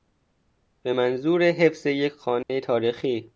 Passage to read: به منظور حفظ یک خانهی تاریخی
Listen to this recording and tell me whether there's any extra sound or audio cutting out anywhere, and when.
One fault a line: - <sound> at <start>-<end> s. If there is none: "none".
- dropout at 2.4-2.5 s